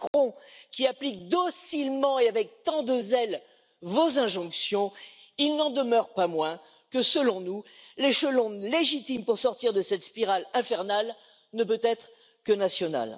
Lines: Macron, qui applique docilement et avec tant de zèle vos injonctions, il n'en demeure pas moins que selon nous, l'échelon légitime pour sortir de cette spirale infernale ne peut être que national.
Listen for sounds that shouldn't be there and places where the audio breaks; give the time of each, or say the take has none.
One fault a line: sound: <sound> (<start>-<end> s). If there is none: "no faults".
sound: dropout (0.1-0.1 s)